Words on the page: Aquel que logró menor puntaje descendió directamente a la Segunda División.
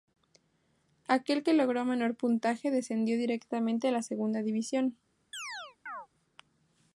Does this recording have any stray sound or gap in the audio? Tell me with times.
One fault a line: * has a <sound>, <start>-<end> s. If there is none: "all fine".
* has a chirp, 5.3-6.1 s